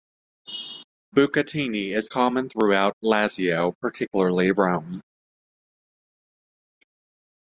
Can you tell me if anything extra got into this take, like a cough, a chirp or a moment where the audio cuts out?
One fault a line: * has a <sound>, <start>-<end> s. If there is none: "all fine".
all fine